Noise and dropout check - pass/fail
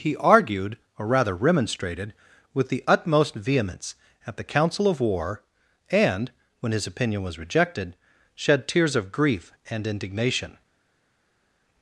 pass